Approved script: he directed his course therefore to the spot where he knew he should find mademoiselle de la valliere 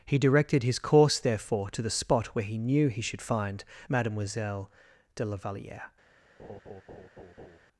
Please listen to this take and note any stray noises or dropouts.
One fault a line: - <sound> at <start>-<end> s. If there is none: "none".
- laugh at 6.4-7.6 s